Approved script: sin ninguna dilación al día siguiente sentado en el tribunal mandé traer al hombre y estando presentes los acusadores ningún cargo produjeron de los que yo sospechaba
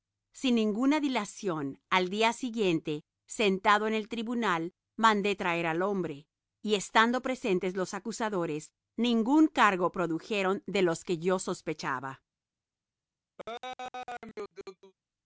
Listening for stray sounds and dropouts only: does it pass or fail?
fail